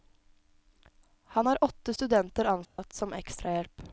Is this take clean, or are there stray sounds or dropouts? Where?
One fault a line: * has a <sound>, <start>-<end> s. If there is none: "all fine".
* has a dropout, 2.6-2.8 s